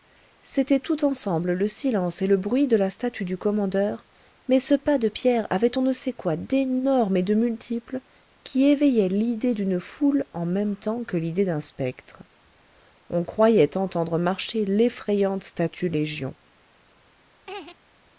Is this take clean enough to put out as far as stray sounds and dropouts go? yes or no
no